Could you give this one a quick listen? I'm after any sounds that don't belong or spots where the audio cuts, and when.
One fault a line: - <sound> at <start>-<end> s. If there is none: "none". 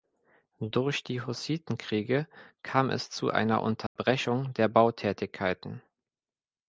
- dropout at 3.9-4.0 s